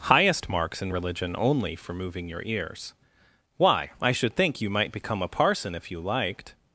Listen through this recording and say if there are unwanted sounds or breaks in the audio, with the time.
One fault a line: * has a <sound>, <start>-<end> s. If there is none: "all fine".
all fine